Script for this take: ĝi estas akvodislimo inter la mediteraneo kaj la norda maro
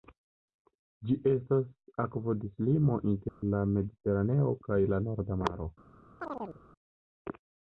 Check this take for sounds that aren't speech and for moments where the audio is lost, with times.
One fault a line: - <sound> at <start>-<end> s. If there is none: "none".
- dropout at 3.3-3.4 s
- chirp at 6.2-6.6 s